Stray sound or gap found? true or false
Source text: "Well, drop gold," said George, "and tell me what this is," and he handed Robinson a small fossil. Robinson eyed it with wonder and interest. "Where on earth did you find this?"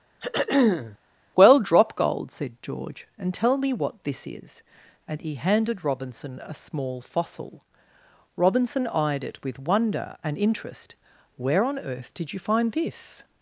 true